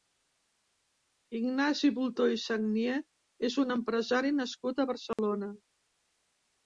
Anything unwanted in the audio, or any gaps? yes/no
yes